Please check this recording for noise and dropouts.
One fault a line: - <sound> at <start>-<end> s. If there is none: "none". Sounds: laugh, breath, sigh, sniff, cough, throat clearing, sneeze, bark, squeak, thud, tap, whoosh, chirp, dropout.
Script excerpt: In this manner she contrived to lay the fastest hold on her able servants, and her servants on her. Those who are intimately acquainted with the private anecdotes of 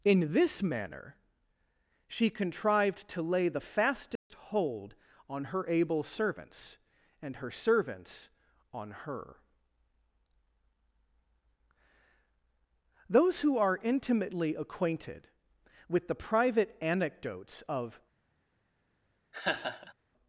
- dropout at 4.2-4.3 s
- laugh at 19.3-19.9 s